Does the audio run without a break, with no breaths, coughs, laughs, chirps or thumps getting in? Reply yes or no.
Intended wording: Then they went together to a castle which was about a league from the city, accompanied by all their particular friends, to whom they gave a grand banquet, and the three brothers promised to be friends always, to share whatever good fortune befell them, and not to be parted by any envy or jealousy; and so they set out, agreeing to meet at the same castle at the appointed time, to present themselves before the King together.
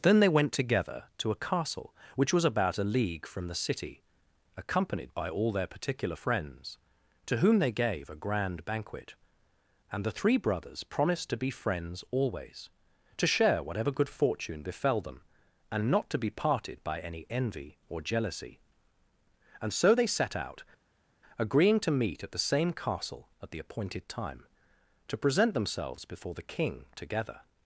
yes